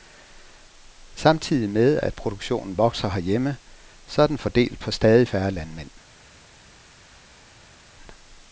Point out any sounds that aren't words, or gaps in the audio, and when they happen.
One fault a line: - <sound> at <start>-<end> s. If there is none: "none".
none